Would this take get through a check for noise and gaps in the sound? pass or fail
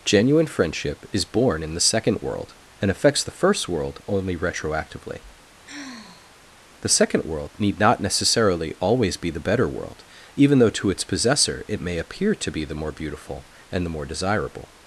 fail